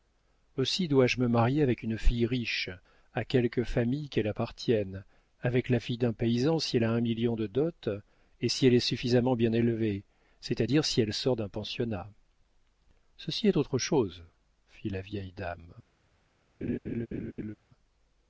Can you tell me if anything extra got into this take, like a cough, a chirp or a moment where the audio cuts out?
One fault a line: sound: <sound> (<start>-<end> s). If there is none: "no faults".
sound: laugh (16.6-17.6 s)